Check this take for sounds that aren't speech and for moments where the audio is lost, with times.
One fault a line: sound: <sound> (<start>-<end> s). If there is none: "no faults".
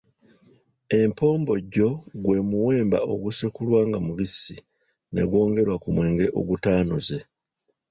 no faults